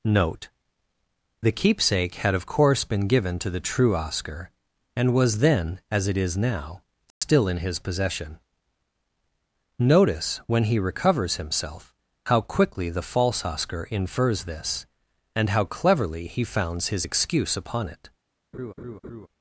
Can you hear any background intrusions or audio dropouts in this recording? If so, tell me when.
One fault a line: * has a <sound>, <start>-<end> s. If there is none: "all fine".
* has a dropout, 7.1-7.2 s
* has a laugh, 18.5-19.3 s